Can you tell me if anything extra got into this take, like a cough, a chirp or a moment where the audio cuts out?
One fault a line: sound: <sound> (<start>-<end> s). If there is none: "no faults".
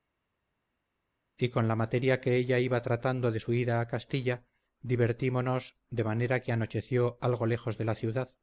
no faults